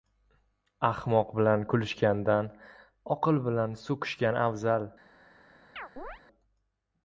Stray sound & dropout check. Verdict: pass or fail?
fail